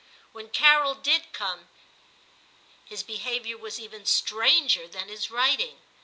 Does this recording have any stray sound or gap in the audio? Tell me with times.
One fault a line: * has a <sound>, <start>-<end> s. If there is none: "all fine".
all fine